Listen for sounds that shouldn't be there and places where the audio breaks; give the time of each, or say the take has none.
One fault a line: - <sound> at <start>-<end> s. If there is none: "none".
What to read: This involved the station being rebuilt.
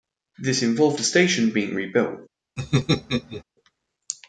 - laugh at 2.6-3.4 s